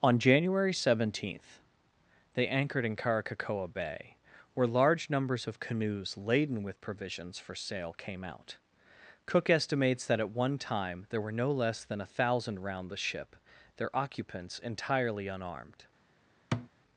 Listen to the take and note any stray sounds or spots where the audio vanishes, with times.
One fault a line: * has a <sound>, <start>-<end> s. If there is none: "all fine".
* has a thud, 16.5-16.7 s